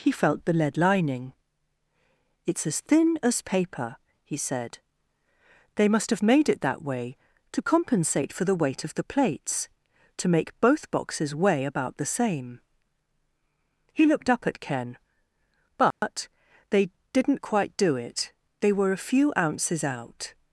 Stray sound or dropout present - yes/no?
yes